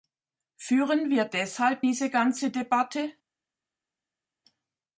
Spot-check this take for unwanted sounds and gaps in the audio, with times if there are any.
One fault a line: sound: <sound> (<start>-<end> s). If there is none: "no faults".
no faults